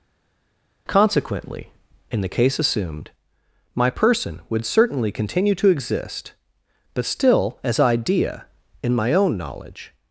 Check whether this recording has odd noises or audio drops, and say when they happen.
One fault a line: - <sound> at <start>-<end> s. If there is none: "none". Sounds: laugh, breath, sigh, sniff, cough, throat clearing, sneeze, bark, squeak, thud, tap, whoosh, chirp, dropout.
none